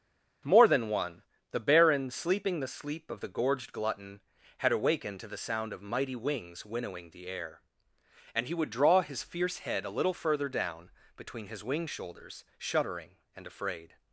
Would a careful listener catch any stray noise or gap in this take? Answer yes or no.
no